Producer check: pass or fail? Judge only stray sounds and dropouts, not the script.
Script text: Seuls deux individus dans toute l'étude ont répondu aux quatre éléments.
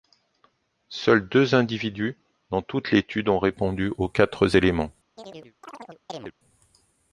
fail